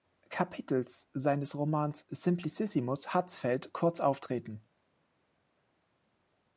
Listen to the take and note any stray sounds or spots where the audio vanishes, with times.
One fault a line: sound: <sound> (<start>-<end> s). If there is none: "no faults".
no faults